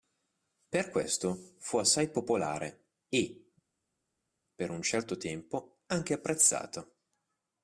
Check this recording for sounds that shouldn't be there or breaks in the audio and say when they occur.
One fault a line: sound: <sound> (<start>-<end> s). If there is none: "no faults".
no faults